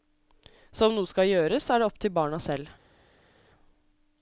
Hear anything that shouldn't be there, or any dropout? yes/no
no